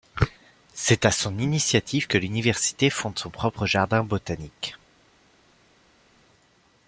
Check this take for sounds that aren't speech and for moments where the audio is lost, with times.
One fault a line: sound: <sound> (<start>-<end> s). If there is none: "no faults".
no faults